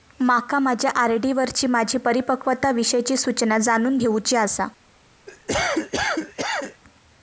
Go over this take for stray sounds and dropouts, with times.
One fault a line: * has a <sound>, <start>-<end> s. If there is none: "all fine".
* has a cough, 5.3-6.8 s